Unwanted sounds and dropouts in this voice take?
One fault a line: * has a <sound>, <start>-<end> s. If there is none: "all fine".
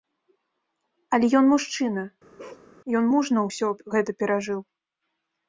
* has a bark, 2.4-2.7 s